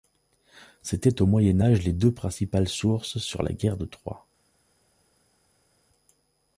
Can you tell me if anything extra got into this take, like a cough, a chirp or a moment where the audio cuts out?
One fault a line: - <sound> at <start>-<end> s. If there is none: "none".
none